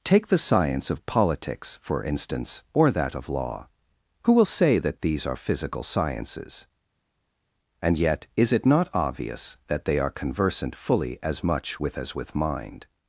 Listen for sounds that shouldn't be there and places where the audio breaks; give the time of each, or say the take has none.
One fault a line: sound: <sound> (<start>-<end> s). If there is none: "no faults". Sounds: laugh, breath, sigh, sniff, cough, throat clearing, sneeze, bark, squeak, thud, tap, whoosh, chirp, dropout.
no faults